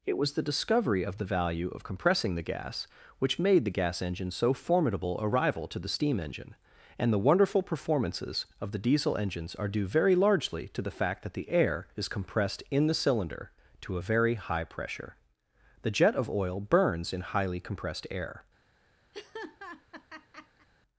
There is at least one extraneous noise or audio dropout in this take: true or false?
true